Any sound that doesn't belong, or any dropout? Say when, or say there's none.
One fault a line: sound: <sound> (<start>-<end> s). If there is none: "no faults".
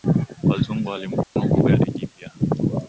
sound: dropout (1.2-1.4 s)